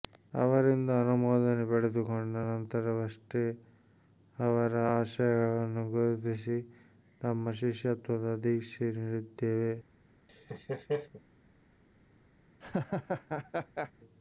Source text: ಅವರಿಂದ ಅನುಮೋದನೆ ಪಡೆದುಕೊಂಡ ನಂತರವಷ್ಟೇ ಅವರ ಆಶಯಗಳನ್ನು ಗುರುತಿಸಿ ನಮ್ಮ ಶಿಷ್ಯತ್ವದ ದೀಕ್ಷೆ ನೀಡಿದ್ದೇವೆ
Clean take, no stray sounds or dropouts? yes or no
no